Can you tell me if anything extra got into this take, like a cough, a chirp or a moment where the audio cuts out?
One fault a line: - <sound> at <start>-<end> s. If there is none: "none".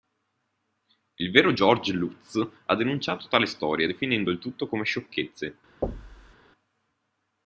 - thud at 5.8-6.4 s